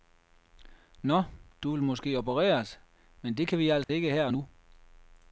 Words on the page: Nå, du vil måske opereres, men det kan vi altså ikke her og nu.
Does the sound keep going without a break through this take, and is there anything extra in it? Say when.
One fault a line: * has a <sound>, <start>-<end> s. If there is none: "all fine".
* has a dropout, 3.8-3.9 s